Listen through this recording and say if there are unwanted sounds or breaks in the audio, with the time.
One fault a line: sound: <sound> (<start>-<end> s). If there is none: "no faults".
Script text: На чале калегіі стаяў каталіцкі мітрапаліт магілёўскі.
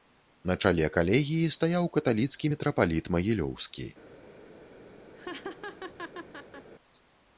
sound: laugh (5.2-6.7 s)